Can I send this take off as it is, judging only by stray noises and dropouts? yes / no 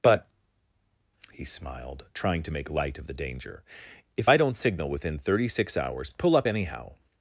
yes